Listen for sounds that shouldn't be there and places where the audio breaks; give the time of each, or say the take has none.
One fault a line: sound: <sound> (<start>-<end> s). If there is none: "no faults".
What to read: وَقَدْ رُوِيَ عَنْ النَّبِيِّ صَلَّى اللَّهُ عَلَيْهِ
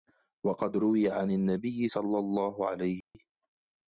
sound: dropout (3.0-3.1 s)